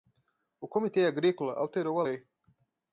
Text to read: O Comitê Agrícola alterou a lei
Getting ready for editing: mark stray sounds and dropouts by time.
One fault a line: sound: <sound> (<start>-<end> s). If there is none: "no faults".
no faults